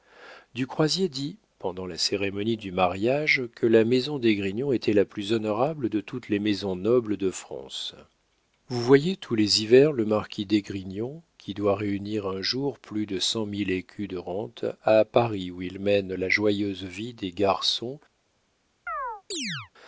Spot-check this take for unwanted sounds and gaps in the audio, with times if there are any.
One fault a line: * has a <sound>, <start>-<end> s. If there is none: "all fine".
* has a chirp, 18.9-19.7 s